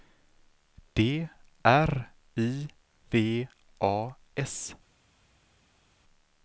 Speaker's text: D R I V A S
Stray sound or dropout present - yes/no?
no